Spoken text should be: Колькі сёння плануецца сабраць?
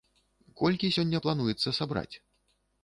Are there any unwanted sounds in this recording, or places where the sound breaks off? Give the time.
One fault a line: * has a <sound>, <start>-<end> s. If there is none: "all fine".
all fine